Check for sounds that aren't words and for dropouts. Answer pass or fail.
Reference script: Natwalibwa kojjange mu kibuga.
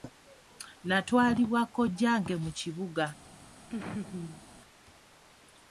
fail